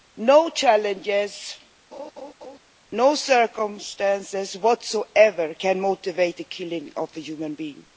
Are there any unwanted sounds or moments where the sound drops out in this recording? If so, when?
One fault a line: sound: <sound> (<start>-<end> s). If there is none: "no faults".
sound: laugh (1.9-2.6 s)